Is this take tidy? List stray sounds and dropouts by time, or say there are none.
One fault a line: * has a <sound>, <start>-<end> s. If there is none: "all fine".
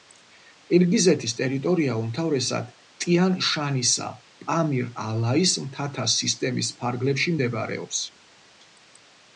all fine